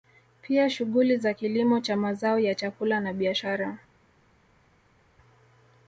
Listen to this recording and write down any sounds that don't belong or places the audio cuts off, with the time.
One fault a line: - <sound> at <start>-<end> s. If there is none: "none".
none